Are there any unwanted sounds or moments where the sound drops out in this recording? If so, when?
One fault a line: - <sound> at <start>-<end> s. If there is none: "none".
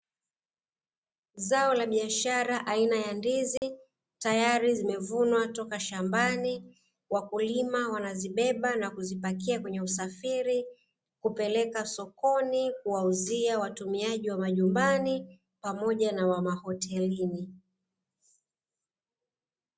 - dropout at 3.6-3.6 s